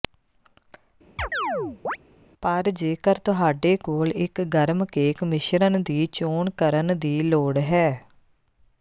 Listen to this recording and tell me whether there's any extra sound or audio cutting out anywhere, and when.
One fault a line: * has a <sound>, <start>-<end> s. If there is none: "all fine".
* has a chirp, 1.2-2.0 s